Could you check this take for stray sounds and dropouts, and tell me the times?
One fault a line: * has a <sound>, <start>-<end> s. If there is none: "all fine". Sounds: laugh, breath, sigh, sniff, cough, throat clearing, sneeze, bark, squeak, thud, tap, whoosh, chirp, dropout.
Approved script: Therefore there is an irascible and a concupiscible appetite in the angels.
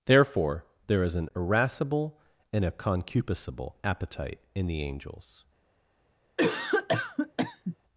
* has a cough, 6.4-7.8 s